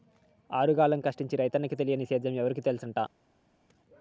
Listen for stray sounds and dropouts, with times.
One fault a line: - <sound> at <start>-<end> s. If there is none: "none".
none